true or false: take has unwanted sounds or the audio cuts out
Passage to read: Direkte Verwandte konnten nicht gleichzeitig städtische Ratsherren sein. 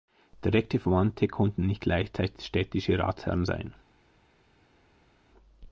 false